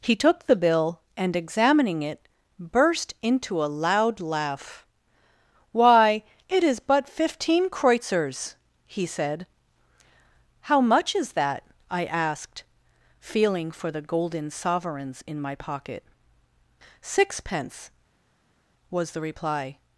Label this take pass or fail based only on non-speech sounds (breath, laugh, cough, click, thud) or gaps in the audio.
pass